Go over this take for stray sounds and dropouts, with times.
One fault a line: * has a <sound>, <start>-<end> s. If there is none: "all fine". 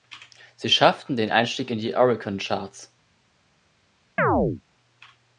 * has a chirp, 4.2-4.6 s